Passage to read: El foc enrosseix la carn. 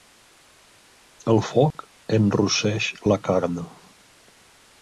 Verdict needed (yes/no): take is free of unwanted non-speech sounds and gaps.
no